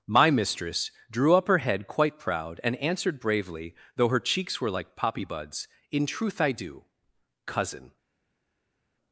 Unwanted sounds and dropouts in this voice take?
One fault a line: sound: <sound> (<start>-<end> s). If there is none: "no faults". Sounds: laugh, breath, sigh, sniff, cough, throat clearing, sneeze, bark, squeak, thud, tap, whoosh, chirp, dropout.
no faults